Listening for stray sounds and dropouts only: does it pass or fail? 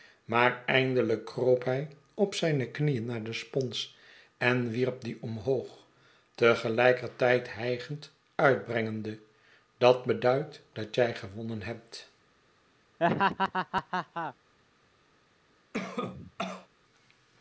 fail